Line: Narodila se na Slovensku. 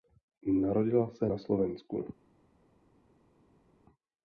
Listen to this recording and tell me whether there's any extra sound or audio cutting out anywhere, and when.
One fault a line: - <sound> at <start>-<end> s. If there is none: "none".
none